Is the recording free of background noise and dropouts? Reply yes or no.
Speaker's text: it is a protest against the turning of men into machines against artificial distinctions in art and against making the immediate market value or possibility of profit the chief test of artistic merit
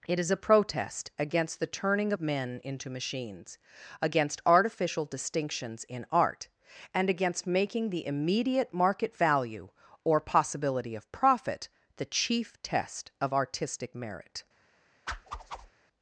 no